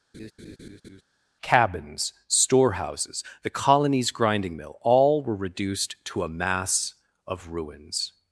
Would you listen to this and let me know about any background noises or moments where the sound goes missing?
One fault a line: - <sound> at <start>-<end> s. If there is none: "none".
- laugh at 0.1-1.0 s